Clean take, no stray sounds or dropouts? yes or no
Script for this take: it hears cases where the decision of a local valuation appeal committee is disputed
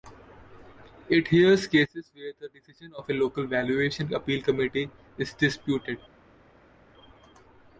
yes